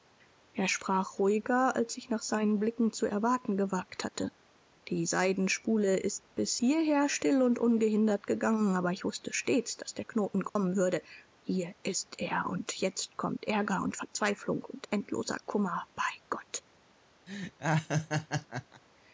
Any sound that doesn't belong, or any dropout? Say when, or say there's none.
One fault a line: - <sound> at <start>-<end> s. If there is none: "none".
- dropout at 10.5-10.6 s
- laugh at 17.3-18.8 s